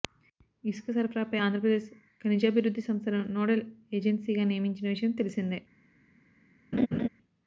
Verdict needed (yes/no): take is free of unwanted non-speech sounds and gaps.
no